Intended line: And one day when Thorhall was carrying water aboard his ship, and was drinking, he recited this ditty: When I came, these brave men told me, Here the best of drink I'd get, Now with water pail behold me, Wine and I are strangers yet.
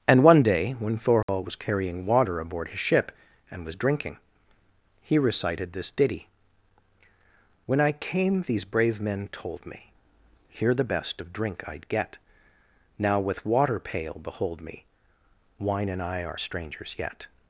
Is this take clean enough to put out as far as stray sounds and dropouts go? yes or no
no